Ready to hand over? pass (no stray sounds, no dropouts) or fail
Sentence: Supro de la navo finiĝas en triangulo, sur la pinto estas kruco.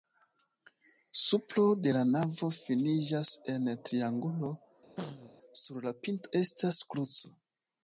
fail